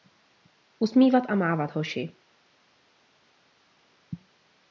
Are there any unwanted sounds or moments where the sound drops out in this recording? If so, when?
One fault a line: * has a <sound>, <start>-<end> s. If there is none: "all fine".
all fine